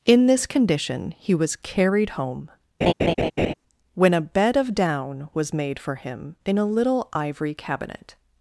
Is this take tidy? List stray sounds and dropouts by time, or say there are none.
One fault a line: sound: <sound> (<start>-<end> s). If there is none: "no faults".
sound: laugh (2.8-3.5 s)